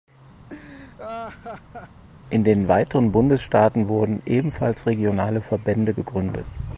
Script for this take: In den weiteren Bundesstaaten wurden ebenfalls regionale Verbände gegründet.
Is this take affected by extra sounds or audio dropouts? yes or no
yes